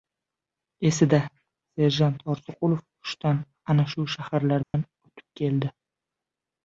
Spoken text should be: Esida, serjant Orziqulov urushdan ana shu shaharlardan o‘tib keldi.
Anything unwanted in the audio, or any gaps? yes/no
yes